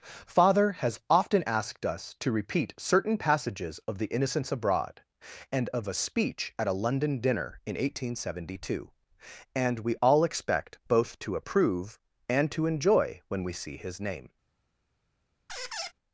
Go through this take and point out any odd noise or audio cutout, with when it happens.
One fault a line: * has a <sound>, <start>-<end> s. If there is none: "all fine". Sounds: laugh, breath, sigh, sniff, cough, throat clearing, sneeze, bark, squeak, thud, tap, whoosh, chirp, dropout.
* has a squeak, 15.5-15.9 s